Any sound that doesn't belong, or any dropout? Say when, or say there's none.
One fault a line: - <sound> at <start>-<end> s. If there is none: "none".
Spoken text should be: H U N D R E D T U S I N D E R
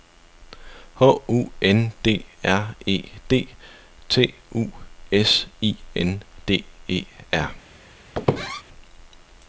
- squeak at 8.1-8.6 s